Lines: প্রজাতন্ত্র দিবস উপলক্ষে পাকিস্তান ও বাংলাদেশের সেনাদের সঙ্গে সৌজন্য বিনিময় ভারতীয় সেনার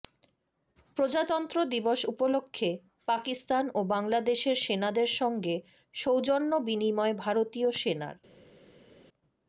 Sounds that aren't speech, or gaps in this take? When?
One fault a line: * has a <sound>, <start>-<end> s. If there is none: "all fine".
all fine